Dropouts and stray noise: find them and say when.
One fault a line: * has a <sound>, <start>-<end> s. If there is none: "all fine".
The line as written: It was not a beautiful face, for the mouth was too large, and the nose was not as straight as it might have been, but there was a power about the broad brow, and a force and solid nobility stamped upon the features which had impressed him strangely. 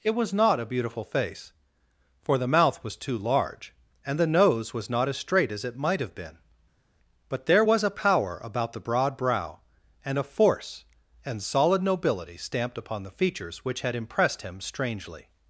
all fine